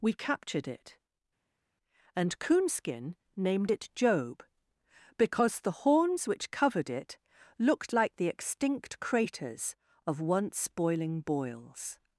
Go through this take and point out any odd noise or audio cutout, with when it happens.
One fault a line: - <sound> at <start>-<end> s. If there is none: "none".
none